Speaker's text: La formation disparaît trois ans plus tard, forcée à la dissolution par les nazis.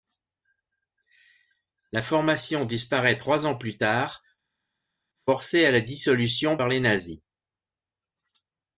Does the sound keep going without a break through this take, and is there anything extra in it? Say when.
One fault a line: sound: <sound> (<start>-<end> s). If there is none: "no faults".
no faults